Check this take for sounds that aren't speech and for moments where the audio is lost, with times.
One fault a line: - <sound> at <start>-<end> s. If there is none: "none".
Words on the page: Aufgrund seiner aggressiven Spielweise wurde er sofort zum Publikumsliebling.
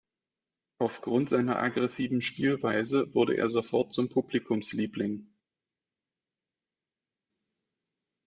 none